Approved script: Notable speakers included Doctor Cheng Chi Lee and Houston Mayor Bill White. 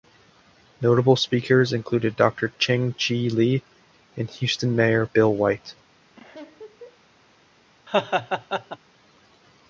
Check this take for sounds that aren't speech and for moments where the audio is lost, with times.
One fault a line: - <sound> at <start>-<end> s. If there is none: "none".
- laugh at 6.2-7.0 s
- laugh at 7.9-8.8 s